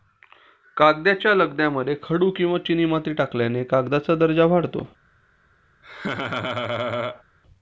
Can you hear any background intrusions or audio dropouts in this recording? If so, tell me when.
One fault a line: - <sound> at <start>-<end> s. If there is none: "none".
- laugh at 5.8-7.2 s